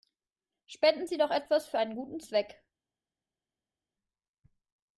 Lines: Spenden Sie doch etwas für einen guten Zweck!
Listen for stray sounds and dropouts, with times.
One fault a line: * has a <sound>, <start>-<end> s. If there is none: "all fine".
all fine